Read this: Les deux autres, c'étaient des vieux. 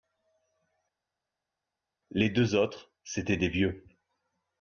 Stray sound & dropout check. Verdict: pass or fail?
pass